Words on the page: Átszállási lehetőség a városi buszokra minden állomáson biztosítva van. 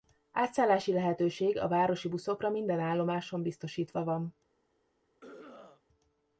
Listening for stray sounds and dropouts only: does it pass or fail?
fail